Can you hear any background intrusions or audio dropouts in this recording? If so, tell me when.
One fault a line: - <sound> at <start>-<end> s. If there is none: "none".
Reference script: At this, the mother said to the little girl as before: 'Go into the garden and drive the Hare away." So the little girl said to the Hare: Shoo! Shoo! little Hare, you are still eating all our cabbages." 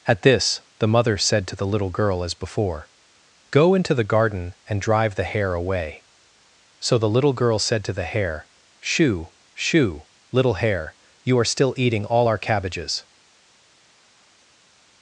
none